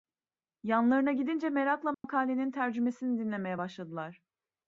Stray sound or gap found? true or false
true